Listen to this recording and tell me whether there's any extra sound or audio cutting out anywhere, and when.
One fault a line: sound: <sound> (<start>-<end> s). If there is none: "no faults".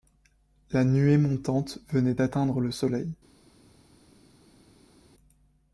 no faults